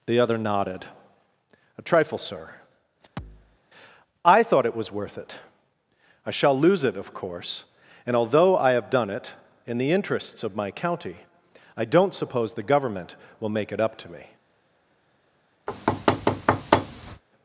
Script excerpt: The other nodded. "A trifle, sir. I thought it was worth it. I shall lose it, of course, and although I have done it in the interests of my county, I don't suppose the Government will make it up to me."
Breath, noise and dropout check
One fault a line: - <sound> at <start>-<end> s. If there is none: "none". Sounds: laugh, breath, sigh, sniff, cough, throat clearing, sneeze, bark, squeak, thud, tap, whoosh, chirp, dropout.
- thud at 3.2-3.6 s
- thud at 15.7-17.2 s